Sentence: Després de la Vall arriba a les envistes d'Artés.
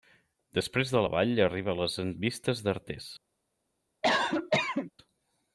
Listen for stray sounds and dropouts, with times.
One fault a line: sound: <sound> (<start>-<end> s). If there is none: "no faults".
sound: cough (4.0-4.9 s)